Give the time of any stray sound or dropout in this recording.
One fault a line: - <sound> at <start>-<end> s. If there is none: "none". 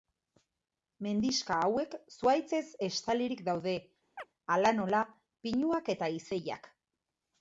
- chirp at 4.2-4.3 s